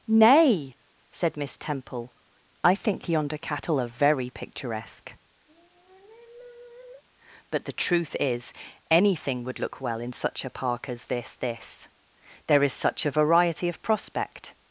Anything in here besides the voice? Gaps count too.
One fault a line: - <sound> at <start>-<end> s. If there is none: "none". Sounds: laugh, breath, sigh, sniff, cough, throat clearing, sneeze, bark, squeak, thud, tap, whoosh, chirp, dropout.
- sigh at 5.5-7.0 s